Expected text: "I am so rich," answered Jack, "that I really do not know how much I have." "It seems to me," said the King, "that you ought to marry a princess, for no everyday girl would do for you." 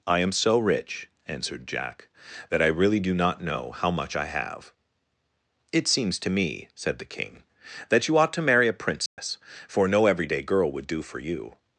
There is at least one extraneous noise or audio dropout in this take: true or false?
true